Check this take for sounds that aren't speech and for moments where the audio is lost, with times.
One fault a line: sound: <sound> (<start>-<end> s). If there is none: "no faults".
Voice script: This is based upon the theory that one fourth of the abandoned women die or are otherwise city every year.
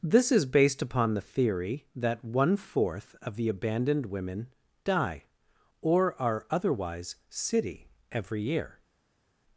no faults